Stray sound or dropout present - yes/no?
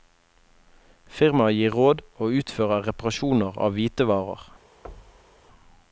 yes